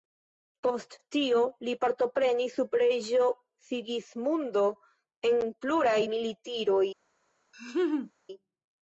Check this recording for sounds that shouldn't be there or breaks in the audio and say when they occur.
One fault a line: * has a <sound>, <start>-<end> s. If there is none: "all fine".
* has a laugh, 7.5-8.1 s